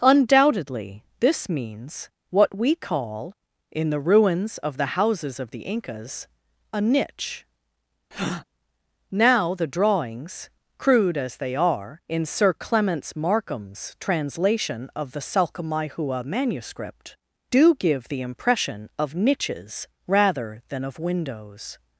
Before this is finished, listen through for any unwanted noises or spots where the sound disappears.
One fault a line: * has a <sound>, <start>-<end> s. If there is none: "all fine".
* has a breath, 8.1-8.4 s